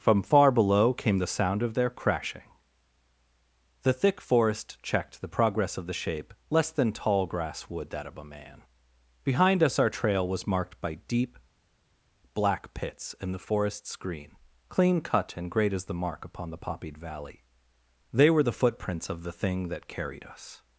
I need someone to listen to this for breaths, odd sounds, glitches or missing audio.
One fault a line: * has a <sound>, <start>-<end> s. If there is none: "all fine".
all fine